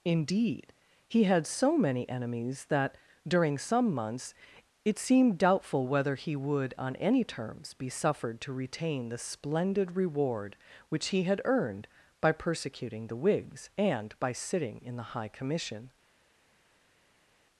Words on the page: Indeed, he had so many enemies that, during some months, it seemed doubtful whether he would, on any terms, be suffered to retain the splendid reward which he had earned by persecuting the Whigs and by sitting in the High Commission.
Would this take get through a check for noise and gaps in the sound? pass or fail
pass